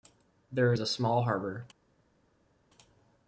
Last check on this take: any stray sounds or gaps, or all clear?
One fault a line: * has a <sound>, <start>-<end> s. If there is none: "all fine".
all fine